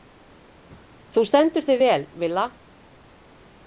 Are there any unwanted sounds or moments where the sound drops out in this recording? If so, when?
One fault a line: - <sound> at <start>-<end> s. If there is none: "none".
none